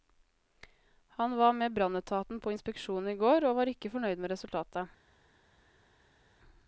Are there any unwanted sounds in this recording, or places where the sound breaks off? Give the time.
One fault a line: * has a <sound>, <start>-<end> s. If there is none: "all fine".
all fine